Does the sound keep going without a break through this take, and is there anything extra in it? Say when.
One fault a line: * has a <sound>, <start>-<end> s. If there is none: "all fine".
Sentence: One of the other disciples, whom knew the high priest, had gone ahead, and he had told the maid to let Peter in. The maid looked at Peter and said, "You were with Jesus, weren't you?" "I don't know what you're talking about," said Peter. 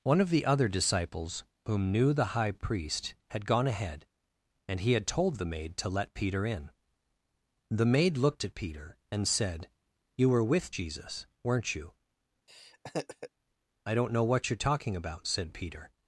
* has a laugh, 12.5-13.3 s